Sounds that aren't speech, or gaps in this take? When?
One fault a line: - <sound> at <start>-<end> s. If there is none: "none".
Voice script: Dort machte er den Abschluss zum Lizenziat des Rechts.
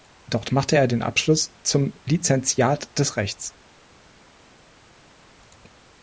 none